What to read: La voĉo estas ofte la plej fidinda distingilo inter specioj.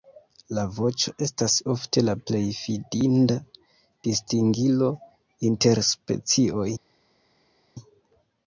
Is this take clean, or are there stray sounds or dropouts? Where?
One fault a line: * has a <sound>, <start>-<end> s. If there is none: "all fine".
all fine